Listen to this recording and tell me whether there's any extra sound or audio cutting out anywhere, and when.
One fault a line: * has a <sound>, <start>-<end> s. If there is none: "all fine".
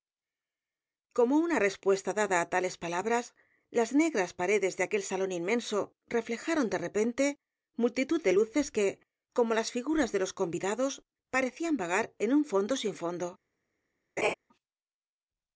* has a laugh, 14.2-14.3 s